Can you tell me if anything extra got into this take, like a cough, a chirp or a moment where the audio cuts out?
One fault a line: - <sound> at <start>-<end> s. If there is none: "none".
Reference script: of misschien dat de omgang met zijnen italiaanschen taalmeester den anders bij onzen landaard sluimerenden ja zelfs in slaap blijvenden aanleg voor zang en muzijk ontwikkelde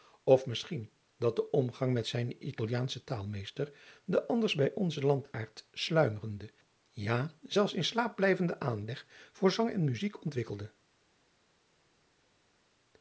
none